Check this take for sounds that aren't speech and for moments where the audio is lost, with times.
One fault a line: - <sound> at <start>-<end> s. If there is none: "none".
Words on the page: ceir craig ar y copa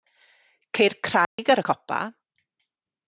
- dropout at 1.2-1.4 s